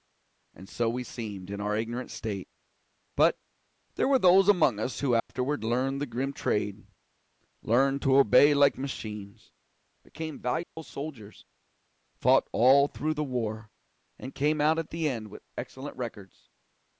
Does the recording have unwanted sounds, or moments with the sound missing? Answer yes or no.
yes